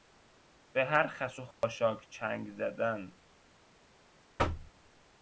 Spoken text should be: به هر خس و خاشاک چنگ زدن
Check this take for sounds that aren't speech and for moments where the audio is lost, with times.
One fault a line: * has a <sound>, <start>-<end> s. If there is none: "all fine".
* has a dropout, 1.5-1.6 s
* has a thud, 4.4-4.7 s